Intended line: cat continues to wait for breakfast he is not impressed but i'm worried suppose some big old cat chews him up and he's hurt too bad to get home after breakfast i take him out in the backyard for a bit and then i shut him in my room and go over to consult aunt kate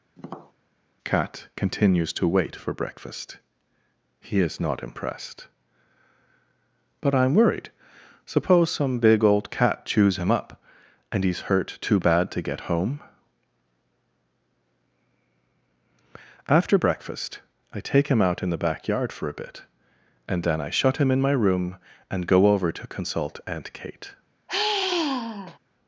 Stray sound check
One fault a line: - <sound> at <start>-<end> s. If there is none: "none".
- tap at 0.2-0.5 s
- sigh at 24.5-25.6 s